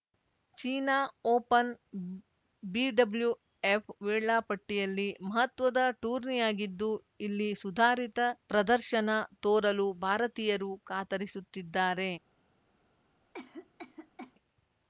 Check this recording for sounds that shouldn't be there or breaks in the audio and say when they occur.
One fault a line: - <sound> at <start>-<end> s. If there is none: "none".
- cough at 13.3-14.3 s